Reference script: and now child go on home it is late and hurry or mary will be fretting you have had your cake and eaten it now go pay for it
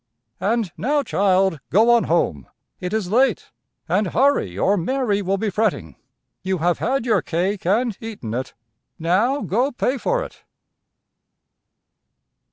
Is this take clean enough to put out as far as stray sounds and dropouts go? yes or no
yes